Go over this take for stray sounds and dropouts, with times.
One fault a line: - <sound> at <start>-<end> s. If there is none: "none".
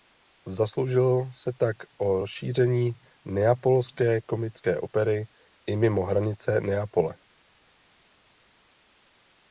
none